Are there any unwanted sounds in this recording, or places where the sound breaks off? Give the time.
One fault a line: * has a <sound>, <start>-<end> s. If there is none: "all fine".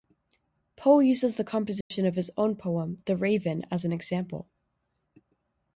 * has a dropout, 1.8-1.9 s